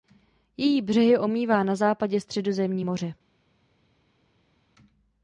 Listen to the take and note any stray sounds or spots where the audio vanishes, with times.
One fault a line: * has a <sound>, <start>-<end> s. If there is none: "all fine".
all fine